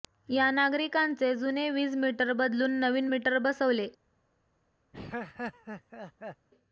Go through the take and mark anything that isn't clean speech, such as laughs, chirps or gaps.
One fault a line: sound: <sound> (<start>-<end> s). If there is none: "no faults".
sound: laugh (4.9-6.5 s)